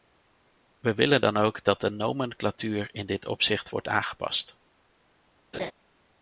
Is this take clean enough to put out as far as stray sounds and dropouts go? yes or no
no